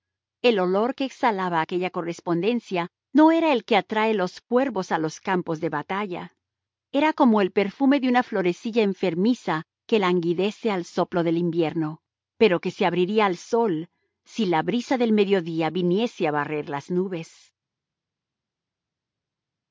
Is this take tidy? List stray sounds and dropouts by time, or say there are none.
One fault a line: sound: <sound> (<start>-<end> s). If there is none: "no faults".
no faults